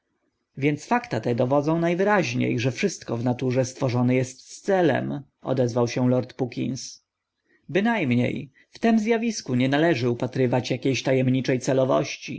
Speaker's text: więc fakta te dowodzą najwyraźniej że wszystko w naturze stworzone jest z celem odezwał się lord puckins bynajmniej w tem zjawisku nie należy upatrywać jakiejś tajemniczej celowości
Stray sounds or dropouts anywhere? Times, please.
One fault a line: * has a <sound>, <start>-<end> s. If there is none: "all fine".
all fine